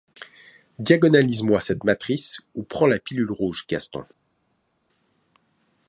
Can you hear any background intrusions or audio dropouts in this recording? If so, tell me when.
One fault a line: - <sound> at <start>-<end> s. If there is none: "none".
none